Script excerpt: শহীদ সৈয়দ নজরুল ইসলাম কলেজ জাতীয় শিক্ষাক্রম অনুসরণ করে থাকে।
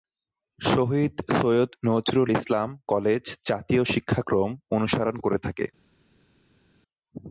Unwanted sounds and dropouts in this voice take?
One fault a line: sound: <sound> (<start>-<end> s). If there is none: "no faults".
no faults